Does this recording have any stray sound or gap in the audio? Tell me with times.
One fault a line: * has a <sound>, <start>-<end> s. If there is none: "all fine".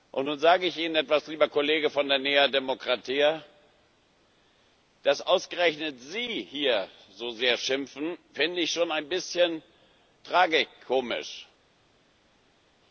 all fine